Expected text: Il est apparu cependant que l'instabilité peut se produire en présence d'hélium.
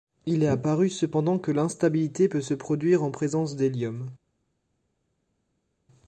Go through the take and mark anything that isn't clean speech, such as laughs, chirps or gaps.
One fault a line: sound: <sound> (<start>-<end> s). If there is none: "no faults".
no faults